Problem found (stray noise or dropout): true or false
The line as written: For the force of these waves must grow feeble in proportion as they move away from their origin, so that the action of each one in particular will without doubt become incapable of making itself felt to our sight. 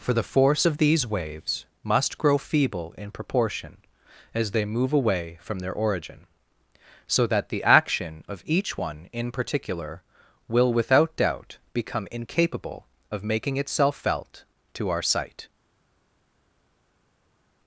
false